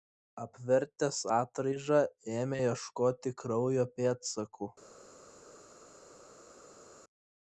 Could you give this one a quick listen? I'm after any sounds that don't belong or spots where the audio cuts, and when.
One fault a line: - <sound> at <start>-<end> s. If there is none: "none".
none